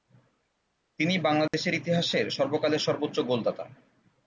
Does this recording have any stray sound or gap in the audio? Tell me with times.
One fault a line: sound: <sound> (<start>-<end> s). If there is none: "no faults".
sound: dropout (1.5-1.5 s)